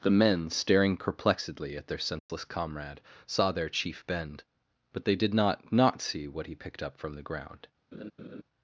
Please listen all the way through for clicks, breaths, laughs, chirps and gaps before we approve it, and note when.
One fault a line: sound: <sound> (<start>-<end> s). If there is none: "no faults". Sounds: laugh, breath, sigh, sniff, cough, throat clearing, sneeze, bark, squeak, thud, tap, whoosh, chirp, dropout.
sound: dropout (2.2-2.3 s)
sound: laugh (7.9-8.4 s)